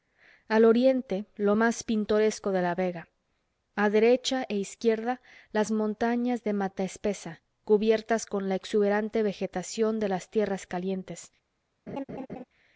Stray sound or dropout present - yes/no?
yes